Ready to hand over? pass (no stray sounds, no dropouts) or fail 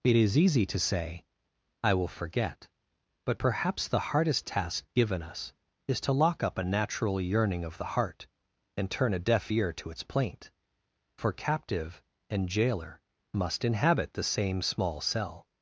pass